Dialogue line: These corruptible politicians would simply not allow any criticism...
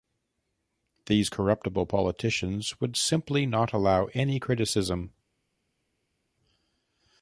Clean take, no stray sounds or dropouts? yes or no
yes